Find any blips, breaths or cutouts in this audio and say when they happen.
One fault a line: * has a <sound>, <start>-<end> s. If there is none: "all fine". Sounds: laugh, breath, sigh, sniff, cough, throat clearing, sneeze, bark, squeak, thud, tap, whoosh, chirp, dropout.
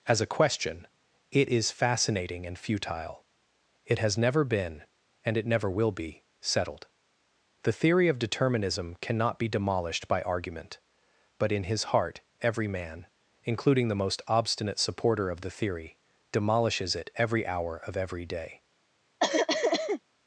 * has a cough, 19.2-20.0 s